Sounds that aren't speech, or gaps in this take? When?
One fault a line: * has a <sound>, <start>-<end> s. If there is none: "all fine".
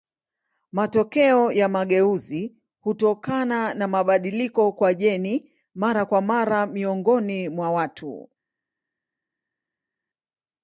all fine